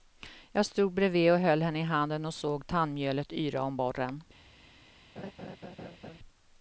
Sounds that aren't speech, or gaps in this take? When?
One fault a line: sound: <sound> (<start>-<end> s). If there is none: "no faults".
sound: laugh (5.2-6.2 s)